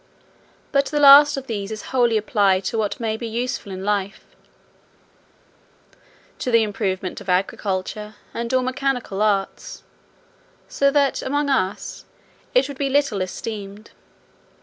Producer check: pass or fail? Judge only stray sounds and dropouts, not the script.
pass